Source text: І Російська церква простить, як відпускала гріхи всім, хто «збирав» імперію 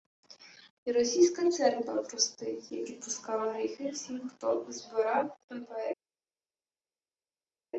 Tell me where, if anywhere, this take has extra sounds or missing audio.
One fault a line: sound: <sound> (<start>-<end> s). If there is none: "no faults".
no faults